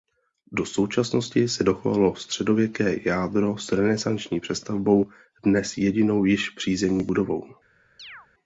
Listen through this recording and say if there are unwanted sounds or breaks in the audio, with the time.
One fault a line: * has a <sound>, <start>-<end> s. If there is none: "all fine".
* has a chirp, 8.0-8.3 s